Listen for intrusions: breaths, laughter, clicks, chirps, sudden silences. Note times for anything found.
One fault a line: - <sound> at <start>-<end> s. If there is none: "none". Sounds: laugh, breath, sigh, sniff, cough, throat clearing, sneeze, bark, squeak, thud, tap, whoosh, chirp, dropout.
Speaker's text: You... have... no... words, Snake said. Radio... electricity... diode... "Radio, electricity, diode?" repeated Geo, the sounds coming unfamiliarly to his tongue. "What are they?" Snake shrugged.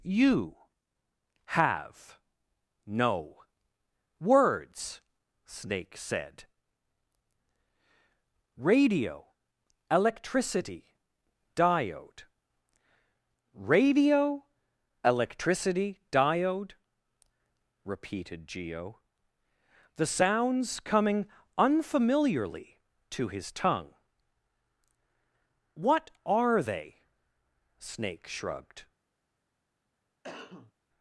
- cough at 30.2-30.7 s